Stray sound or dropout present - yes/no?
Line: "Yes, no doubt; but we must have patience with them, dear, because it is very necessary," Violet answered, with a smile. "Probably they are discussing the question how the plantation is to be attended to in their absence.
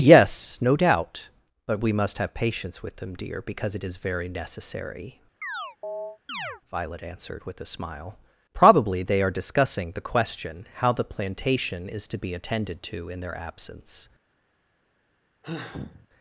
yes